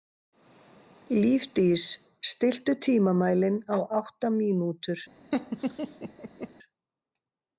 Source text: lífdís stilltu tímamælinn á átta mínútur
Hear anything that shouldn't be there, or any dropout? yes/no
yes